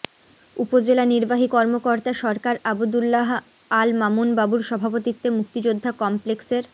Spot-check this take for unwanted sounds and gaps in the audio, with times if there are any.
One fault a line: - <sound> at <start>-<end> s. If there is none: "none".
none